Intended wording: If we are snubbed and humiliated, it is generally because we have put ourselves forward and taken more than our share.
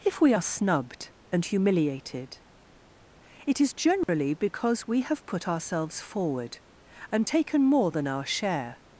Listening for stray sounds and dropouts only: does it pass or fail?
fail